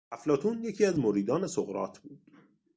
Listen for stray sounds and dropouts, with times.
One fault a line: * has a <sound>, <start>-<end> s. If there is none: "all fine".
all fine